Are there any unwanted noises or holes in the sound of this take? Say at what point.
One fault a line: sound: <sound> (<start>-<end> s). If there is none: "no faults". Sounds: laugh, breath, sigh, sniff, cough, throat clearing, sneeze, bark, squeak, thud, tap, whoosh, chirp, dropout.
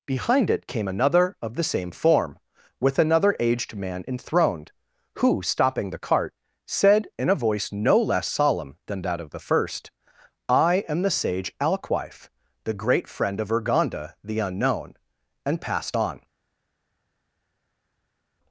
no faults